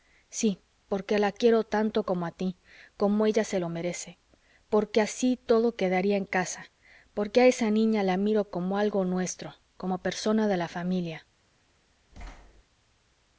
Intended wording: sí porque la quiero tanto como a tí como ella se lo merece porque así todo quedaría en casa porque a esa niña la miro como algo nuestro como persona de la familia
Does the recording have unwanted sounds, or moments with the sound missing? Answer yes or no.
yes